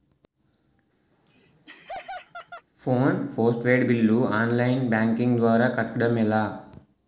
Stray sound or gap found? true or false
true